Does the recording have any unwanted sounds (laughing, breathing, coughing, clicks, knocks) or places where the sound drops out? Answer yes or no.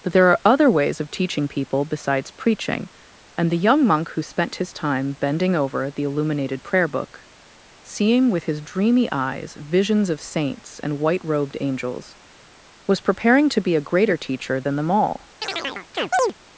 yes